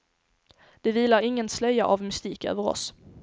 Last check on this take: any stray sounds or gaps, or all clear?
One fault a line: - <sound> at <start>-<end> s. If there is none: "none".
none